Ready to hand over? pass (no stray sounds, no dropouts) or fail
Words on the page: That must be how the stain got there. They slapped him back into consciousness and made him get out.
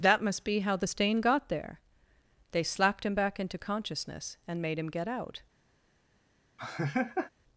fail